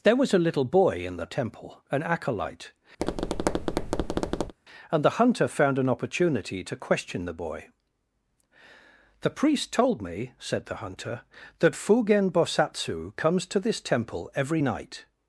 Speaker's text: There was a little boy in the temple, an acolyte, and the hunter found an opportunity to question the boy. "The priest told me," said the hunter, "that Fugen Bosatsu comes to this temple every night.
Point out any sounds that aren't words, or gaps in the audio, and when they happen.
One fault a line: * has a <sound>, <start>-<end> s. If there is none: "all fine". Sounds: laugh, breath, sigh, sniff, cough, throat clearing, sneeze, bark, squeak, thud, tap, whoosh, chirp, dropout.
* has a tap, 3.0-4.5 s